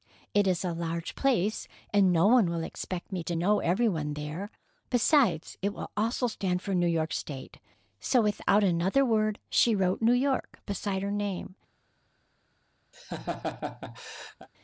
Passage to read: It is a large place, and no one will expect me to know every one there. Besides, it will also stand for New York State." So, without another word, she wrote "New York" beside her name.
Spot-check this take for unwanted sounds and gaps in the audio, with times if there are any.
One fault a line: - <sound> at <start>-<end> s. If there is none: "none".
- laugh at 12.9-14.5 s